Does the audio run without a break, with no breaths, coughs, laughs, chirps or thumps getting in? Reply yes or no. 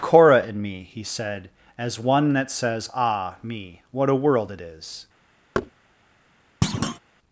no